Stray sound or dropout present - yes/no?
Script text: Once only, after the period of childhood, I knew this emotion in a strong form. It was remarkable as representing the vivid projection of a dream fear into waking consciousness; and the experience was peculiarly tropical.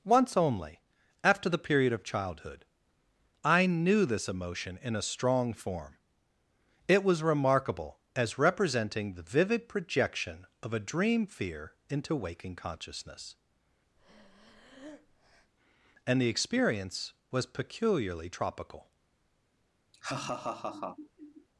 yes